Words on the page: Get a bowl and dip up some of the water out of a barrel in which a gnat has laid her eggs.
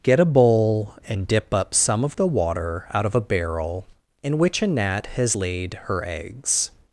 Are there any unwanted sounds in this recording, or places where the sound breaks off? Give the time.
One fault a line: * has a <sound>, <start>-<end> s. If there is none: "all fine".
all fine